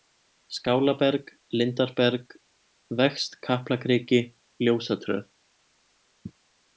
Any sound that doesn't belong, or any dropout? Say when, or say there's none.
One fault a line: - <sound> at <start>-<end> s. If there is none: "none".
none